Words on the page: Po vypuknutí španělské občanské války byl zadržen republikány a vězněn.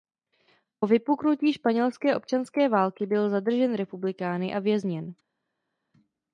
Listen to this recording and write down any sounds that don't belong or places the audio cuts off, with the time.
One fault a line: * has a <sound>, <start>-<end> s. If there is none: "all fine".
all fine